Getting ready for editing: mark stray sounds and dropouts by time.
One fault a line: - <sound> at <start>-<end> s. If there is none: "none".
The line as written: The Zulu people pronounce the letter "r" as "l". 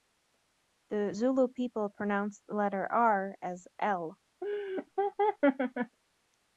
- laugh at 4.4-6.0 s